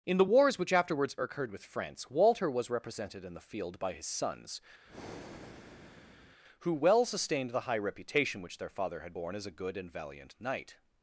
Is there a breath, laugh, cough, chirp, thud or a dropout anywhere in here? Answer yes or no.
yes